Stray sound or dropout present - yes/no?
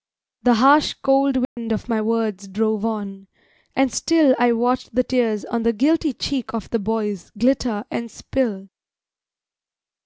yes